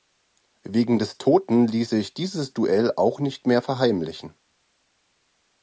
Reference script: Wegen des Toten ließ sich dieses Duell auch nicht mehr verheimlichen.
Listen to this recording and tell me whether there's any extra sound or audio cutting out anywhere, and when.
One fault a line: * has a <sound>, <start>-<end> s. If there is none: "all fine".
all fine